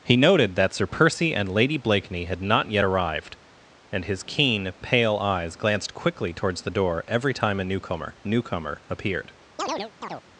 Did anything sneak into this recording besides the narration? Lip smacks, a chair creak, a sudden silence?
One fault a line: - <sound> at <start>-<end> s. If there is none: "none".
- chirp at 9.6-10.2 s